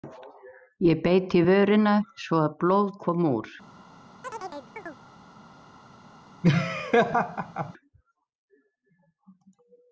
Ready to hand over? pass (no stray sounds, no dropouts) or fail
fail